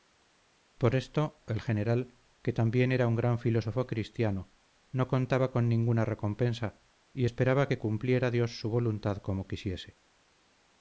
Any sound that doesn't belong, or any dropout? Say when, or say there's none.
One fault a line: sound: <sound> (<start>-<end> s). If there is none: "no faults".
no faults